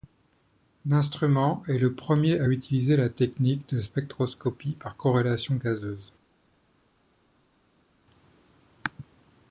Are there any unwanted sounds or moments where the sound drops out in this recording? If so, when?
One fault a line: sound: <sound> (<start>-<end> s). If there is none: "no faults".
no faults